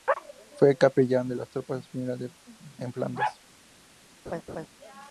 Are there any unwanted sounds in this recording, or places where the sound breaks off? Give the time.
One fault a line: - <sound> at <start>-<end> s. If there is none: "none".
- laugh at 4.3-4.7 s